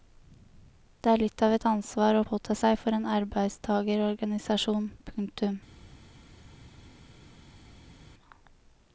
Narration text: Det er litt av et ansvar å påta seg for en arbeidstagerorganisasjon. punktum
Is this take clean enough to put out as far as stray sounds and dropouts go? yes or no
yes